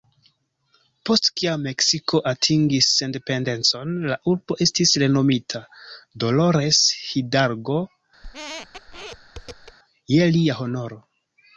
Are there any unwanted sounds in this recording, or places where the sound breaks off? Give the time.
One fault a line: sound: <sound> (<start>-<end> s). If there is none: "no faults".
sound: squeak (8.2-9.8 s)